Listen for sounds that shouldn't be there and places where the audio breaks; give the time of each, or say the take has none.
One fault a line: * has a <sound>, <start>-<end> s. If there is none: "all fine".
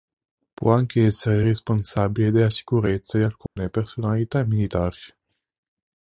* has a dropout, 3.5-3.6 s